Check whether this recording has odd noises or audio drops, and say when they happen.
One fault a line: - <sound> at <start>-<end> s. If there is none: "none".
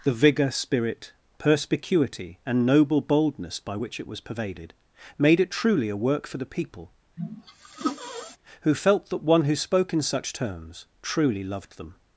- sneeze at 7.2-8.4 s